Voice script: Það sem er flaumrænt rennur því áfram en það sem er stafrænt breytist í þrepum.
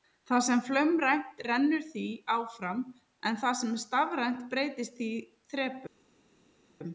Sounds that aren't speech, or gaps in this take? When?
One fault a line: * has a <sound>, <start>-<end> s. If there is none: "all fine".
all fine